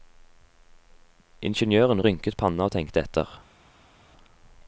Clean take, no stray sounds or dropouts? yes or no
yes